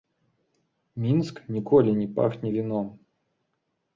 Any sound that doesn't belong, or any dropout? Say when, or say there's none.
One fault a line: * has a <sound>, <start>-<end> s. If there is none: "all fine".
all fine